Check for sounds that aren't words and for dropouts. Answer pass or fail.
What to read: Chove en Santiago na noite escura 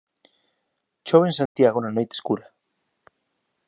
fail